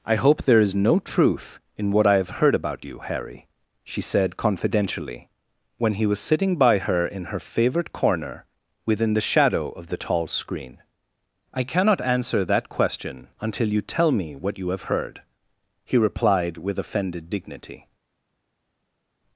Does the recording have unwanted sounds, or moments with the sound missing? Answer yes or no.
no